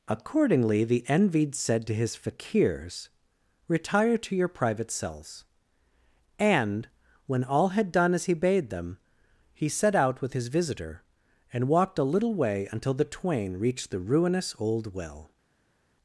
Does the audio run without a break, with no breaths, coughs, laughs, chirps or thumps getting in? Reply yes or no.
yes